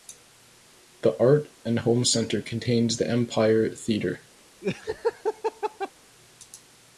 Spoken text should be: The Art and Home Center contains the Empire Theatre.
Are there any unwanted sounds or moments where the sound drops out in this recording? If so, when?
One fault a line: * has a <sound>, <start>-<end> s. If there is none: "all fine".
* has a laugh, 4.6-5.9 s